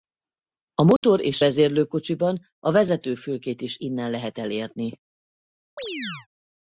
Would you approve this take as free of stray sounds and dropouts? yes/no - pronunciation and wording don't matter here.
no